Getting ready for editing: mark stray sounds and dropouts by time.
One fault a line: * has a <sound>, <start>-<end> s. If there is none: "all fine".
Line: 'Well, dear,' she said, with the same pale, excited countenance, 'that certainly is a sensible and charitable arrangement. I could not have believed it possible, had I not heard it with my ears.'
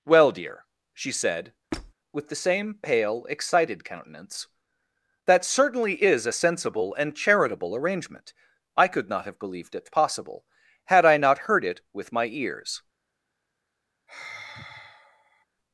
* has a squeak, 1.7-1.9 s
* has a sigh, 14.1-15.5 s